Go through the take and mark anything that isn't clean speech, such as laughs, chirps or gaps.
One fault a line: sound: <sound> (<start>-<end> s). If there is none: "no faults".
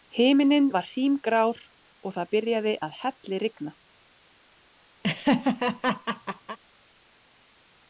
sound: laugh (5.0-6.6 s)